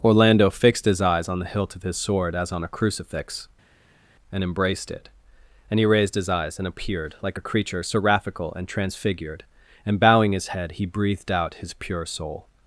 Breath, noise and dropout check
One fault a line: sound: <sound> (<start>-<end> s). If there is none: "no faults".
no faults